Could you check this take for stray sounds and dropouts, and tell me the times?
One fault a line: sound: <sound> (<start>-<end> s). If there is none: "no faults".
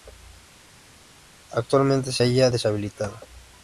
no faults